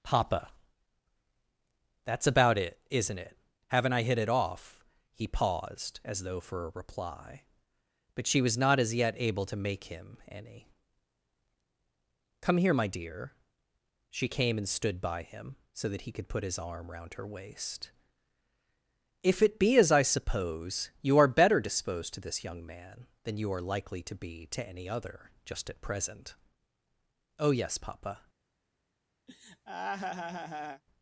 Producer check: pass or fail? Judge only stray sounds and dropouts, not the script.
fail